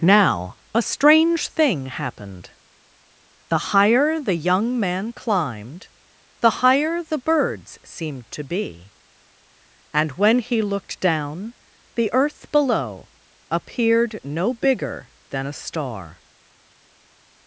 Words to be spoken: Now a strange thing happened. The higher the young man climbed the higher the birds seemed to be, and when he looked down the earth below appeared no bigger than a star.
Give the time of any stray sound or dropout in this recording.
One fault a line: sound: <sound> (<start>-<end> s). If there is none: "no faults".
no faults